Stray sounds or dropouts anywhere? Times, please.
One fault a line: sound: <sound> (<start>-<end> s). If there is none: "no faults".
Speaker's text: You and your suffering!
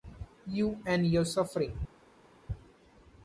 no faults